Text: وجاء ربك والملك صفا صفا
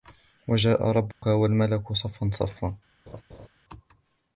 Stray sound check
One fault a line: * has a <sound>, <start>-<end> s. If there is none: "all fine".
* has a dropout, 1.1-1.2 s
* has a laugh, 3.1-3.5 s